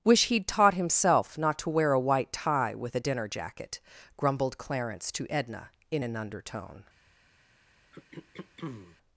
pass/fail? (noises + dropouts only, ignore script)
fail